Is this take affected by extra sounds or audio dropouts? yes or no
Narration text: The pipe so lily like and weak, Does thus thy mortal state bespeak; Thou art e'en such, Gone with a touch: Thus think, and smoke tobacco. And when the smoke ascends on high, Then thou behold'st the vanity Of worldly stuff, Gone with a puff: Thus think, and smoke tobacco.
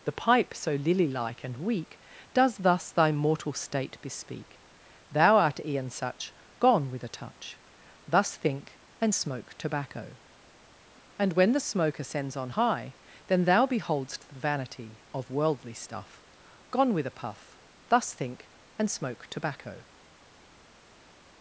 no